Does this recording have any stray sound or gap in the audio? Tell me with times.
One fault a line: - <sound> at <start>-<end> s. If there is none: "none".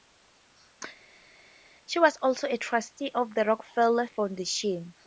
none